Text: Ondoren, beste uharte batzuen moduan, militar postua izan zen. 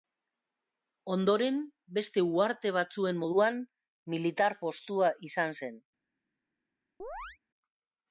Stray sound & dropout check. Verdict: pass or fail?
fail